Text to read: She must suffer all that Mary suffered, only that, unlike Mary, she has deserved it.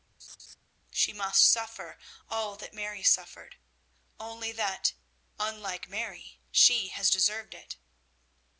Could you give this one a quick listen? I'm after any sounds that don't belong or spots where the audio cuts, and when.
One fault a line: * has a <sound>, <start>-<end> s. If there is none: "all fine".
* has a laugh, 0.2-0.6 s